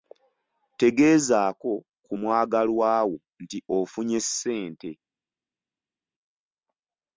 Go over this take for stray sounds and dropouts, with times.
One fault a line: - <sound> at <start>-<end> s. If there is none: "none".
none